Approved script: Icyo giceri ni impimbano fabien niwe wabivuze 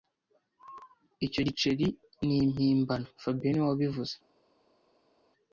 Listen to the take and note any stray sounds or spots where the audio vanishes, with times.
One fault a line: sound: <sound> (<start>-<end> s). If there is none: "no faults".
no faults